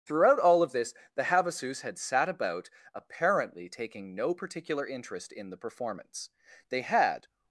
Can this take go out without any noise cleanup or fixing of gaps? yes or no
yes